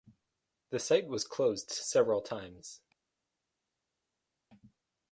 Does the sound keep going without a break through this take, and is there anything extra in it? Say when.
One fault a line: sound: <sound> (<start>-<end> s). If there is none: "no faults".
no faults